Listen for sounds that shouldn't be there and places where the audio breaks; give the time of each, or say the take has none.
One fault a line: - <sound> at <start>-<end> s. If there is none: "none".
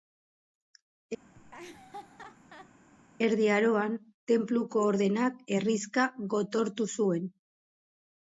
- laugh at 1.3-2.7 s